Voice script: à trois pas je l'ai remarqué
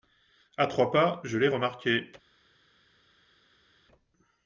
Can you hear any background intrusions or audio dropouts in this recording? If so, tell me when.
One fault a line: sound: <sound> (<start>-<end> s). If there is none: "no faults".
no faults